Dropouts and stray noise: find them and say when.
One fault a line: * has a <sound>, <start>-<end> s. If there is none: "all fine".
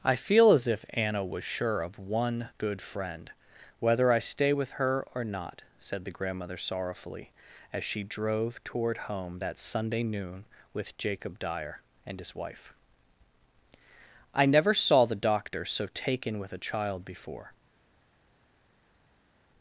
all fine